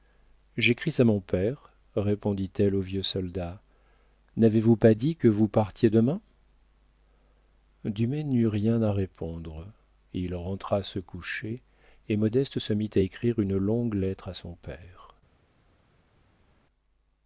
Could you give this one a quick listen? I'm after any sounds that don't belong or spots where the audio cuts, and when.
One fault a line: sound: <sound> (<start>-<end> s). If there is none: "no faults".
no faults